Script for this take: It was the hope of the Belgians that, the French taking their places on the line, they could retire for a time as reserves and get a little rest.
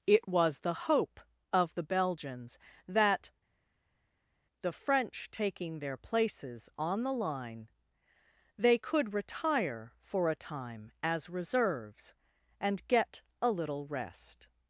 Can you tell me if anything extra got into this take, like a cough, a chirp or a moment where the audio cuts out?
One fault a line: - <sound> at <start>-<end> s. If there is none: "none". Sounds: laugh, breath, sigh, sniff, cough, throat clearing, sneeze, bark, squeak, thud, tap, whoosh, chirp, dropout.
none